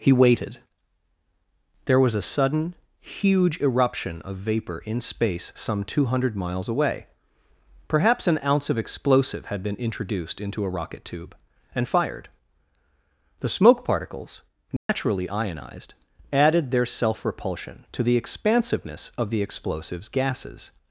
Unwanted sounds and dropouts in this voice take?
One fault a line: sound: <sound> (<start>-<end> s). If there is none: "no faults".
sound: dropout (14.8-14.9 s)